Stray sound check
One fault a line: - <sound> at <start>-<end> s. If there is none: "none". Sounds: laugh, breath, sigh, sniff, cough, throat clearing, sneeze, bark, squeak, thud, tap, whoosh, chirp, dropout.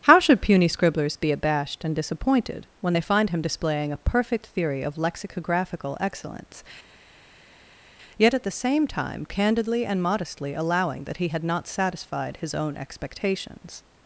none